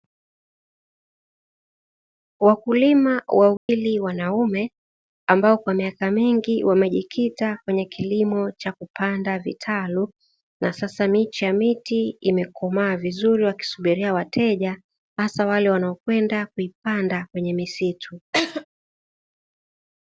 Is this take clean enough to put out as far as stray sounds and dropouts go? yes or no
no